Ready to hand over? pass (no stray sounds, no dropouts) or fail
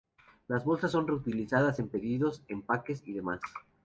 pass